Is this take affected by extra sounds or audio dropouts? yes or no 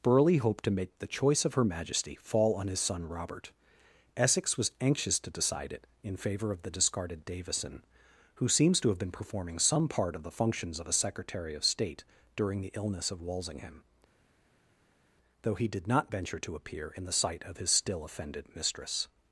no